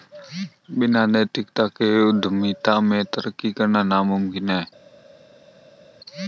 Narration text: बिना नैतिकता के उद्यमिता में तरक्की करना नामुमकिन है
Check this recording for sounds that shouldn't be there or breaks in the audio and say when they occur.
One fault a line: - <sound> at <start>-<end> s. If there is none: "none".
none